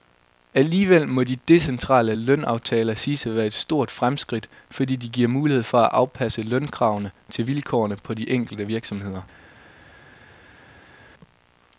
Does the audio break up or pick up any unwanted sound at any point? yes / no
no